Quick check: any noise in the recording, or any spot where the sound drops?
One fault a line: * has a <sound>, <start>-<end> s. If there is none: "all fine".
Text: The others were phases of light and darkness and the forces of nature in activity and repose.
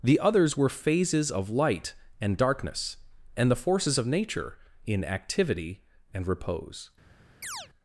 * has a chirp, 7.4-7.7 s